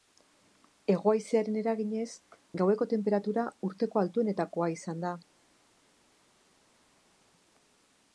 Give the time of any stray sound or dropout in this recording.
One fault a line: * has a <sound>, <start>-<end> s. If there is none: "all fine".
all fine